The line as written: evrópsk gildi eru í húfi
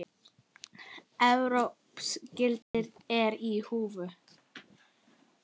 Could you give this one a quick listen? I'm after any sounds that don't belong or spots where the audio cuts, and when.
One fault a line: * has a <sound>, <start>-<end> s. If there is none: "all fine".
* has a dropout, 2.6-2.7 s